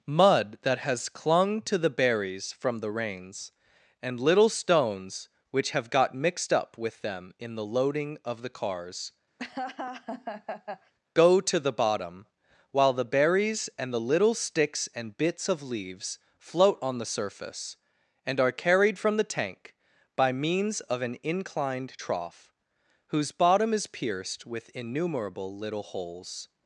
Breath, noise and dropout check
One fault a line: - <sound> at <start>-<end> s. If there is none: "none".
- laugh at 9.4-10.9 s